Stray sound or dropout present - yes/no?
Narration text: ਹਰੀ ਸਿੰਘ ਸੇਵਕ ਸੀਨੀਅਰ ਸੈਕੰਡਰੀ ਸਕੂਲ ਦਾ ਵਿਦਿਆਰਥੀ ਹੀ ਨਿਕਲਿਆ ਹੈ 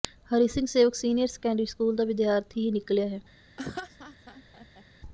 yes